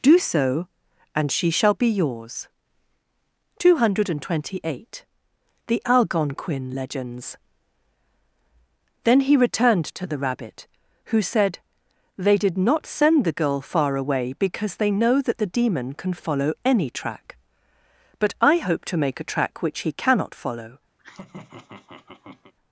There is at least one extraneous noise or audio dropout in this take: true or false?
true